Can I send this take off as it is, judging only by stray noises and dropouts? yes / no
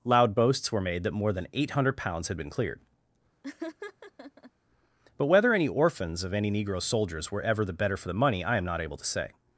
no